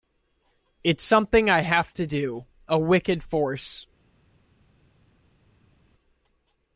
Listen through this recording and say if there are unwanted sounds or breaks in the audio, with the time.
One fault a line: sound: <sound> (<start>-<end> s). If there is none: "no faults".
no faults